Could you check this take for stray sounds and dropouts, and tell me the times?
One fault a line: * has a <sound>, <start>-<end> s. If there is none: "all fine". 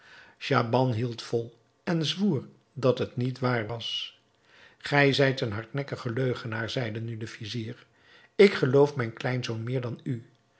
all fine